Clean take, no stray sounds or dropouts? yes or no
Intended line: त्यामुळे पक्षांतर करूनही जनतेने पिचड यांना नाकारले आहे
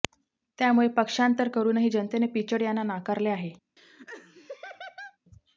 no